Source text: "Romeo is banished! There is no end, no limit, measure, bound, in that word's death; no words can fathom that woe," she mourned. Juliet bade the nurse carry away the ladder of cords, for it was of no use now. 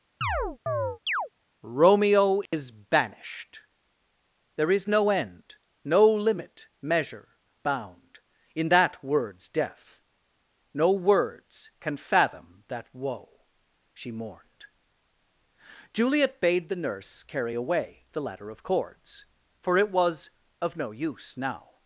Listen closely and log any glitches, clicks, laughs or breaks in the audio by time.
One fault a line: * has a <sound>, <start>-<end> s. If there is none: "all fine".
* has a chirp, 0.2-1.3 s
* has a dropout, 2.5-2.5 s